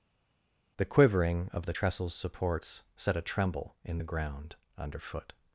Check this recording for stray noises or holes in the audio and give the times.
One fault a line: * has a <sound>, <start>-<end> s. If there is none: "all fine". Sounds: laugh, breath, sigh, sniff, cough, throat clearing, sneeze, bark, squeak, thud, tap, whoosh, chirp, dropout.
all fine